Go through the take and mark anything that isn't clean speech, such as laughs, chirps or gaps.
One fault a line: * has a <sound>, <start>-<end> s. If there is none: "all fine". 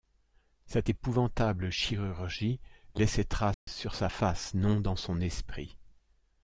* has a dropout, 3.5-3.7 s